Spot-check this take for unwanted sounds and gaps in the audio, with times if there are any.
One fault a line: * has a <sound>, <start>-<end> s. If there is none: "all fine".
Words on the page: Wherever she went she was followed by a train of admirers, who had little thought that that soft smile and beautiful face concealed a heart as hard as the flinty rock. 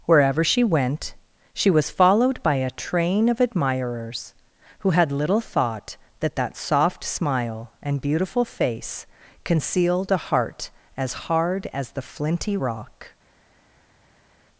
all fine